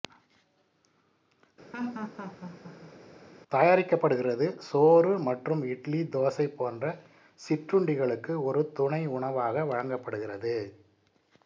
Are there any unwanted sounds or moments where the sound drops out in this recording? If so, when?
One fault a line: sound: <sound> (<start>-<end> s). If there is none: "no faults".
sound: laugh (1.7-3.0 s)